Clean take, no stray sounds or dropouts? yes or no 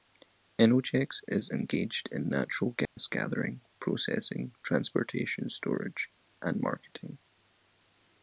no